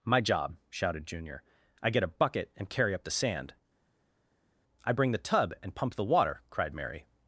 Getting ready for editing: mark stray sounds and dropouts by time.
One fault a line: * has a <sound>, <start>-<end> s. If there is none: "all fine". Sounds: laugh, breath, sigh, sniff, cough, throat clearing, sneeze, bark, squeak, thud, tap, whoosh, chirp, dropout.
all fine